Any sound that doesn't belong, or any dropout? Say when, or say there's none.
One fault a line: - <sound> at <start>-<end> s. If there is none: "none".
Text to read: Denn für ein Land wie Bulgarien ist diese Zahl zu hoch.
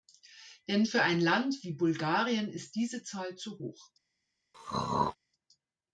- throat clearing at 4.5-5.2 s